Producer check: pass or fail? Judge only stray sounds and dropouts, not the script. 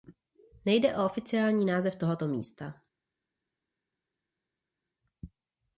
pass